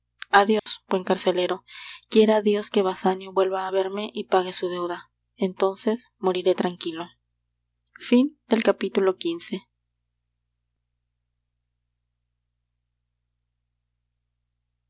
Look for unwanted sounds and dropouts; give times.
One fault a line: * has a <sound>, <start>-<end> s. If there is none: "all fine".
* has a dropout, 0.6-0.7 s